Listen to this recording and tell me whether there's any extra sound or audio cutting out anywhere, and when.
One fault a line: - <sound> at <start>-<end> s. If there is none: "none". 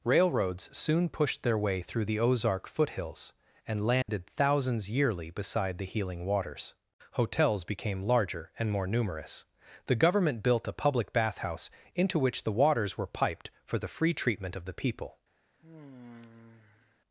- dropout at 4.0-4.1 s
- sigh at 15.6-17.0 s